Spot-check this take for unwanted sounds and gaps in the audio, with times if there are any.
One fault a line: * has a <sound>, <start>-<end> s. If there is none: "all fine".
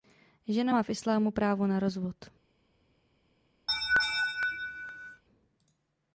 * has a laugh, 3.7-5.2 s